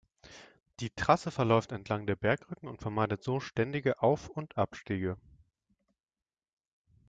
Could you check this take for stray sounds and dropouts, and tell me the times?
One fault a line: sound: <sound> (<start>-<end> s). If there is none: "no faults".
no faults